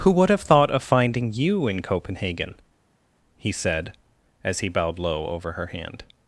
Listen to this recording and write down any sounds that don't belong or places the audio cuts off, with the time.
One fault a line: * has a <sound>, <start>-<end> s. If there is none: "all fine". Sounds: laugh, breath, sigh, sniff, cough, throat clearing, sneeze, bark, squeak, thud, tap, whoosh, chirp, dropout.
all fine